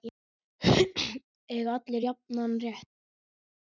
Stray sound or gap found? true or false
false